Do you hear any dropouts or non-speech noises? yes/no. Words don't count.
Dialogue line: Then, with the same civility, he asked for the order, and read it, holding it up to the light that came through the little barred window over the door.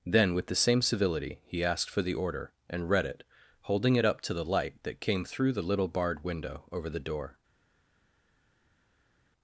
no